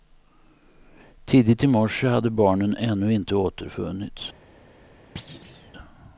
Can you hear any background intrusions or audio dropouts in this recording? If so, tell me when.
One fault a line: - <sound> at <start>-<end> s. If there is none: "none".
- thud at 5.2-5.7 s